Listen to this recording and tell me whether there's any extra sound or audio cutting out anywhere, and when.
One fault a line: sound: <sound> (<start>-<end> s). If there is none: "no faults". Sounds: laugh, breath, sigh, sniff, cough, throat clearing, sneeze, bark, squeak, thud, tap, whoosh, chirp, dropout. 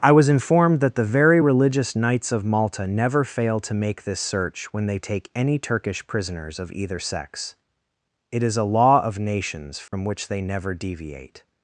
sound: dropout (9.9-9.9 s)